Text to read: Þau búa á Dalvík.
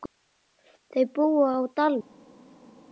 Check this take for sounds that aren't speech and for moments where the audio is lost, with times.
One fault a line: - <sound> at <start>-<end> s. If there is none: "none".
none